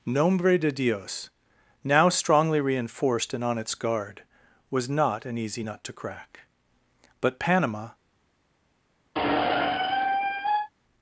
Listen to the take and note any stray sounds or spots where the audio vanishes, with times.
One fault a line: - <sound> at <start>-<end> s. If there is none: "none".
- squeak at 9.1-10.7 s